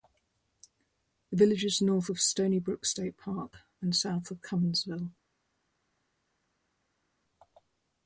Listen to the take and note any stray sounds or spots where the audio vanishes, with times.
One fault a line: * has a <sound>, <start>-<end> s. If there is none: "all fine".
all fine